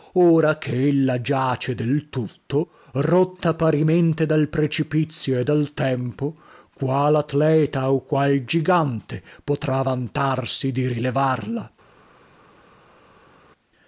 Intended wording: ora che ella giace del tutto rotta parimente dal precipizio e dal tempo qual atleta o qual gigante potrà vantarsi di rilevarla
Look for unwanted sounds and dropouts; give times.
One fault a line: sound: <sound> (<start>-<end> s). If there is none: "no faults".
no faults